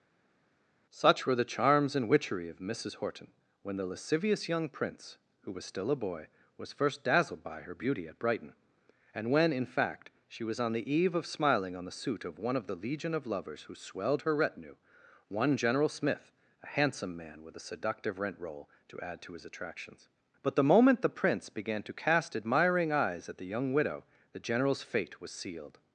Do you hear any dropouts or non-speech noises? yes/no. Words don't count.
no